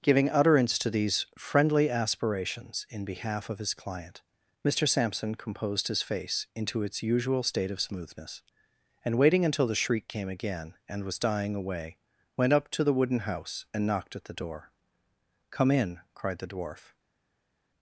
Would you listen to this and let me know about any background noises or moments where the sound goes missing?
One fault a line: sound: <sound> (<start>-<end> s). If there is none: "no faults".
no faults